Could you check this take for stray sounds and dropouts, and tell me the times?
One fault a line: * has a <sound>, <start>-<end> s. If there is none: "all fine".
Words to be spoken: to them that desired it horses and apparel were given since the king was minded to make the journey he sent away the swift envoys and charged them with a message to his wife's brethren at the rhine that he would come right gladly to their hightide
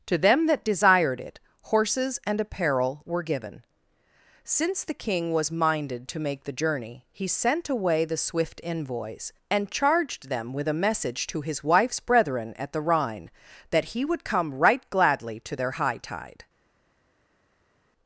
all fine